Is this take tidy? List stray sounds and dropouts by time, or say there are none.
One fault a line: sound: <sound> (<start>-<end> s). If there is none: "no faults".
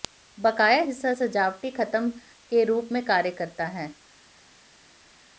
no faults